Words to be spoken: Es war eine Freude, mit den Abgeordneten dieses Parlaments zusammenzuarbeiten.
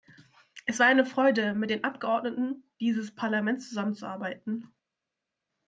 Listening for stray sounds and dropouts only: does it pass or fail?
pass